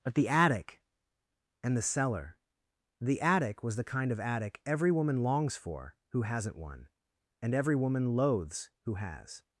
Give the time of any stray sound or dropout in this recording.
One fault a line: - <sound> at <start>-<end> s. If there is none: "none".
none